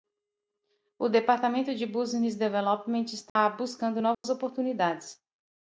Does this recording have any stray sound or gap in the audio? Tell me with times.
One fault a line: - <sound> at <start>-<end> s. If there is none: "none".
- dropout at 3.3-3.4 s
- dropout at 4.1-4.2 s